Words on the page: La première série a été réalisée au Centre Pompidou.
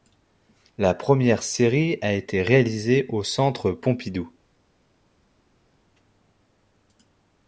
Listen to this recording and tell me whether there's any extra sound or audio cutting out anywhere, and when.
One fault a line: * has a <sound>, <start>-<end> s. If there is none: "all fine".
all fine